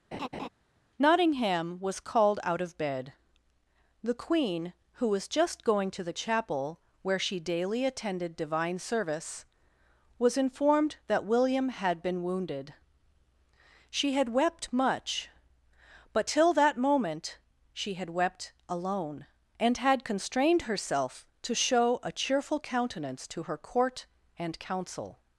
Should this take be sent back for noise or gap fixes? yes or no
yes